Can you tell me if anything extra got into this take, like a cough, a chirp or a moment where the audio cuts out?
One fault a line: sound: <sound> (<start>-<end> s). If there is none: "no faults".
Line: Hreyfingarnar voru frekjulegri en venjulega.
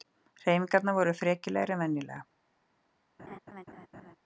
sound: laugh (3.2-4.2 s)